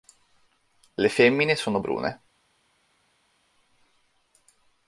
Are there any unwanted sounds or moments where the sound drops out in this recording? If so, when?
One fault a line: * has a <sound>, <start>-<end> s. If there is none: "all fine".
all fine